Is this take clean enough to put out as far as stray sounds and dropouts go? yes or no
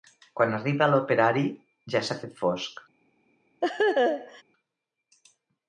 no